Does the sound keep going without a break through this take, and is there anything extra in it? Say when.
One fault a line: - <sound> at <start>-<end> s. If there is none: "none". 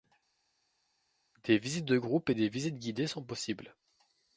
none